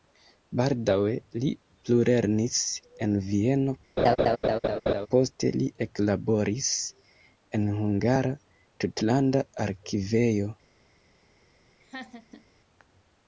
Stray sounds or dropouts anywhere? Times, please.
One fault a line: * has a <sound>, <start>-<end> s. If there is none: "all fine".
* has a laugh, 4.0-5.1 s
* has a laugh, 11.8-12.4 s